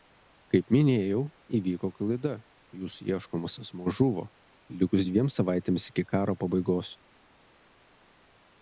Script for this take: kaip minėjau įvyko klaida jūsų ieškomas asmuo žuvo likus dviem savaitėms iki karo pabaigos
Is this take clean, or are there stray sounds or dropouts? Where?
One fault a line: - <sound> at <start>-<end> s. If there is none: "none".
none